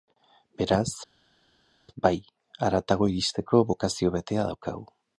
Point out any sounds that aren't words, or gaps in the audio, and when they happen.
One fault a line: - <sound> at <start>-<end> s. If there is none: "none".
none